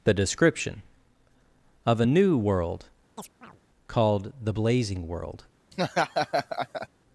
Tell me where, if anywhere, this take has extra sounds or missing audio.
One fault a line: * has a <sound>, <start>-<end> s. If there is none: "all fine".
* has a chirp, 3.2-3.6 s
* has a laugh, 5.7-6.9 s